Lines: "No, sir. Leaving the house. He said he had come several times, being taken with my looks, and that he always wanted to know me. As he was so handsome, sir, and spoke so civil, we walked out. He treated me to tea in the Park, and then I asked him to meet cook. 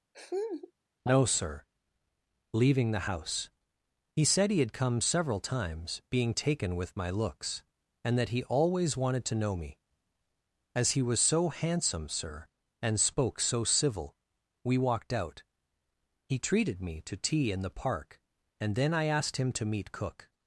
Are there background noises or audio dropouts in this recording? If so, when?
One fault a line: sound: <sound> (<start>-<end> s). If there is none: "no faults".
sound: laugh (0.1-0.7 s)